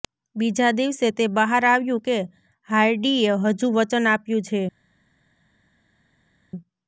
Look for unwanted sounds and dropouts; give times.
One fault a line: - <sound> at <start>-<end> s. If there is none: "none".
none